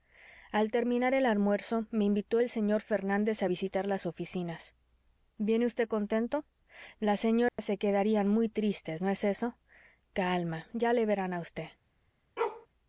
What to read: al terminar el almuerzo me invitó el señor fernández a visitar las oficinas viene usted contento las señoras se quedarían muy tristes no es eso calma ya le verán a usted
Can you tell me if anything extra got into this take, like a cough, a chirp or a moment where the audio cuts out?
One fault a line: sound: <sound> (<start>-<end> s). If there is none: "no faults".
sound: dropout (7.5-7.6 s)
sound: bark (12.4-12.7 s)